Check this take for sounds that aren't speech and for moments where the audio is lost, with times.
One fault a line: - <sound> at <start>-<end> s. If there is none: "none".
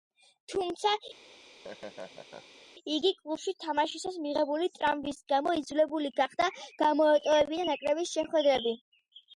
- laugh at 1.2-2.6 s